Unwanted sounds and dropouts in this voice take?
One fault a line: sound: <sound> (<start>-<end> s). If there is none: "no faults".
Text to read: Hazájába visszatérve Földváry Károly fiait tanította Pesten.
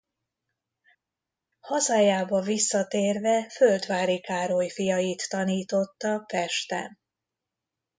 no faults